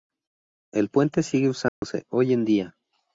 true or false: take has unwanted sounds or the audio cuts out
true